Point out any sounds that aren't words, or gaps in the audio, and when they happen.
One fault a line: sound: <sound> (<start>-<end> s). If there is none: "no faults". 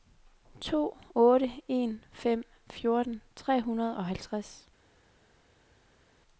no faults